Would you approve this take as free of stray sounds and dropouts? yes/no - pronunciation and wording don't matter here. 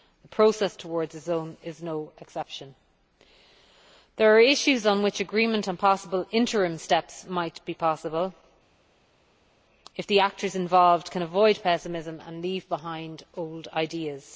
yes